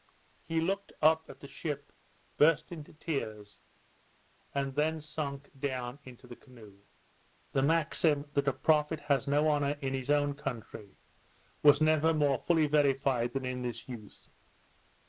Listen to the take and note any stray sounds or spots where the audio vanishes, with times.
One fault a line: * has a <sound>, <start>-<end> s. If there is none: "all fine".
all fine